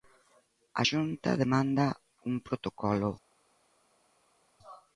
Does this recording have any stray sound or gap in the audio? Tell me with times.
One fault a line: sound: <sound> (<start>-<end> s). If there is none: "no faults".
no faults